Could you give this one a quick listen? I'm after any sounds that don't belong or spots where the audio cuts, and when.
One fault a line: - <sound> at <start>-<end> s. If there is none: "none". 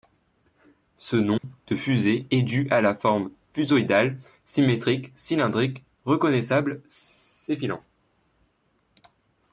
- dropout at 1.4-1.4 s